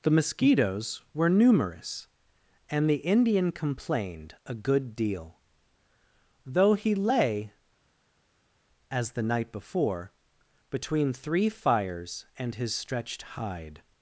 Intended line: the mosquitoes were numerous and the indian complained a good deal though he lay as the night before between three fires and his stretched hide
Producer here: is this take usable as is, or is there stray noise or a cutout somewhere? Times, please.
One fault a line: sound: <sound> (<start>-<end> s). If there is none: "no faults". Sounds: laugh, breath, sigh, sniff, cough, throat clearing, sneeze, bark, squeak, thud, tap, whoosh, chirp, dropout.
no faults